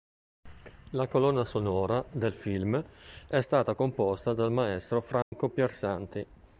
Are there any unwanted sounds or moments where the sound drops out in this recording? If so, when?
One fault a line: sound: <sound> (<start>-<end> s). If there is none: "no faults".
sound: dropout (5.2-5.3 s)